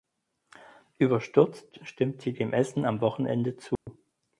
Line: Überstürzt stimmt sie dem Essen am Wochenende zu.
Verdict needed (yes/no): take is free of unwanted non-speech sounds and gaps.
no